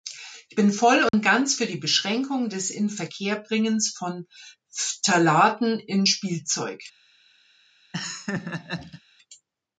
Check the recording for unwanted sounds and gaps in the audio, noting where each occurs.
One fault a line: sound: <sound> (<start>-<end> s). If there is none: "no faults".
sound: dropout (1.1-1.1 s)
sound: laugh (7.9-9.0 s)